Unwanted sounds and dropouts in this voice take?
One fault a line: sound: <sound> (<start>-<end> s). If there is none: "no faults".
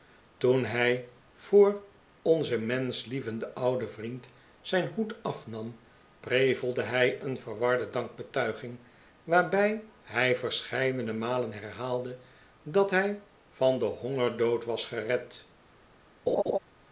sound: laugh (16.3-16.6 s)